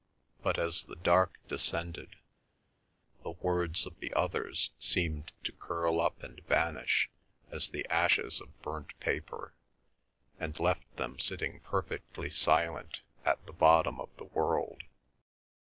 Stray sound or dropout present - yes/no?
no